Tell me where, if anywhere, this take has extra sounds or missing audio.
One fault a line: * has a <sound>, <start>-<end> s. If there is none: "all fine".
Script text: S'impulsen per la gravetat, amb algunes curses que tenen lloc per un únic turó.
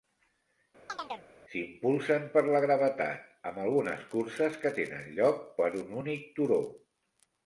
* has a chirp, 0.9-1.3 s